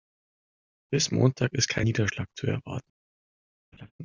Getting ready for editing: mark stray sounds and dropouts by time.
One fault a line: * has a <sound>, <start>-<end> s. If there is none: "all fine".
* has a laugh, 3.7-3.9 s